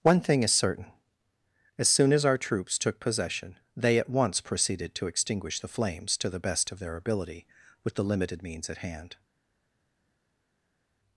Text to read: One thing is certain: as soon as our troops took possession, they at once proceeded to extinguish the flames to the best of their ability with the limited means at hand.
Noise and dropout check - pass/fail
pass